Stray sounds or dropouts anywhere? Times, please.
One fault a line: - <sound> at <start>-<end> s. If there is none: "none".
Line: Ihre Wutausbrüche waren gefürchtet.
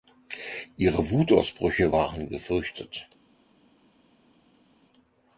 none